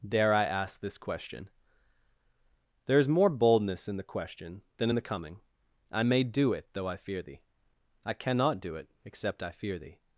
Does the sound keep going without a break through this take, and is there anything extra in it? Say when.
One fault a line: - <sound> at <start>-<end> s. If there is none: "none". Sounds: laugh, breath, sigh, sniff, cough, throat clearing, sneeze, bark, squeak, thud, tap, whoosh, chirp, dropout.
none